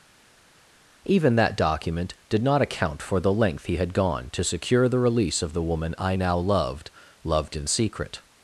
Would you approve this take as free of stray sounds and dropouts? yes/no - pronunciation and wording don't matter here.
yes